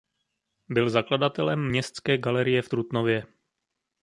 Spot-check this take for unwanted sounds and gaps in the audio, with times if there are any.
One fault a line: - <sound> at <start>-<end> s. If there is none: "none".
none